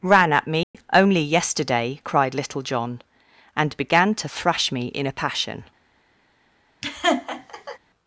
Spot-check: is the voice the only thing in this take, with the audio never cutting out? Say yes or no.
no